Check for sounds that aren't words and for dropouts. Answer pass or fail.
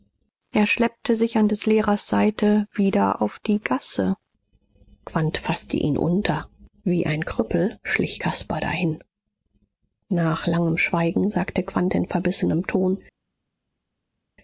pass